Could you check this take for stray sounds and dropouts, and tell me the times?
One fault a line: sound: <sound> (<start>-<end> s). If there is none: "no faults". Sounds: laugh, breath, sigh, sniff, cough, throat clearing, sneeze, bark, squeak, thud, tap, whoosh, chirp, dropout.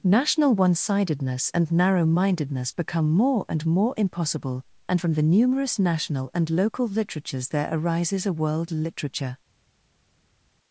no faults